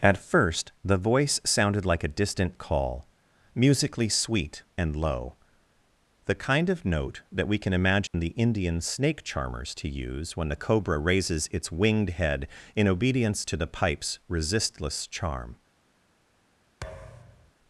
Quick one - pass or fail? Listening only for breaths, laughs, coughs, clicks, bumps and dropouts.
fail